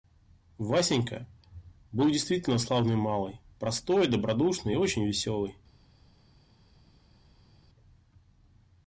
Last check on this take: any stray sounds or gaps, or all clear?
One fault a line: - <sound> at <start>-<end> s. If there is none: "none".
none